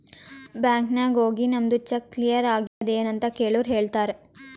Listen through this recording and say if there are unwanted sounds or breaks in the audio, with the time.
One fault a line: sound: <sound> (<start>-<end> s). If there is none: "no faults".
sound: dropout (2.7-2.8 s)